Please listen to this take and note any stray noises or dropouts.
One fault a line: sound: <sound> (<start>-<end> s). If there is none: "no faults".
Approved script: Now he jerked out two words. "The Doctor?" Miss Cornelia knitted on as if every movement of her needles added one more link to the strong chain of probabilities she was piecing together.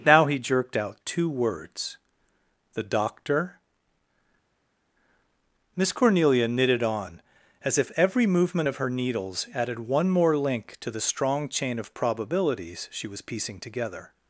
no faults